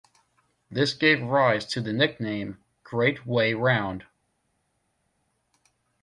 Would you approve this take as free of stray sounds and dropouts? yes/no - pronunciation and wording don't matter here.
yes